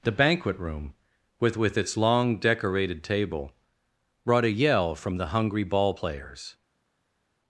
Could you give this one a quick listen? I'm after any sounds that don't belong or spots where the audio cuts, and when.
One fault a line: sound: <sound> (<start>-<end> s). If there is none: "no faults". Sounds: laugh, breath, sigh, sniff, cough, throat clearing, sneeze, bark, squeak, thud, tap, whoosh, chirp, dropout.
no faults